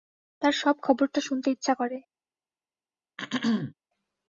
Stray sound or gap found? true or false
true